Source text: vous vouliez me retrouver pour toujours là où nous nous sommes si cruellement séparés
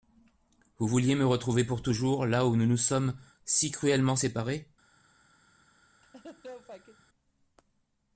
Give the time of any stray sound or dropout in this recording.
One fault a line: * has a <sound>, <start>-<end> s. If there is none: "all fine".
* has a laugh, 6.0-7.0 s